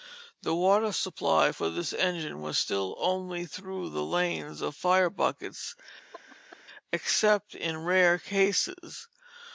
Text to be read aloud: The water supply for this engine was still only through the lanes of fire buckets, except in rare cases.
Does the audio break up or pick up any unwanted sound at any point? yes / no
yes